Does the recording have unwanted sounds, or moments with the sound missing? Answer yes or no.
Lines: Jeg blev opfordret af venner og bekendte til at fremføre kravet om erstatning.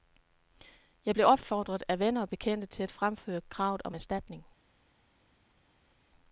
no